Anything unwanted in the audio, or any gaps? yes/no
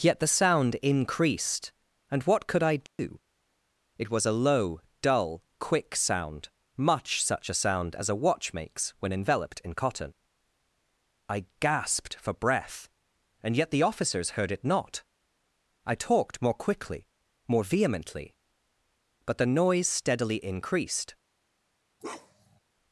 yes